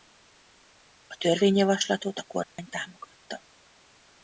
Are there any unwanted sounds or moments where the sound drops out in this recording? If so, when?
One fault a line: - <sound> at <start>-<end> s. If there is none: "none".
- dropout at 2.4-2.6 s